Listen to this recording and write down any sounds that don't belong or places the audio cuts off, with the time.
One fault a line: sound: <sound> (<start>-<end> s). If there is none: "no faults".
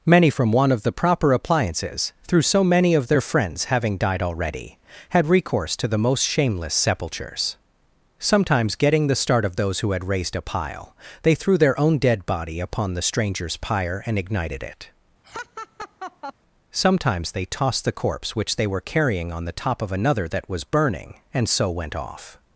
sound: laugh (15.2-16.3 s)